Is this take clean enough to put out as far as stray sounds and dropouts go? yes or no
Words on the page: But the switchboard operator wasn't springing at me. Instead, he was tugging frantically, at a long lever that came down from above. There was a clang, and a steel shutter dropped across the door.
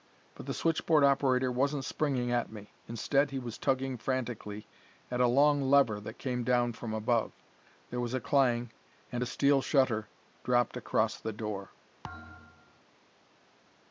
no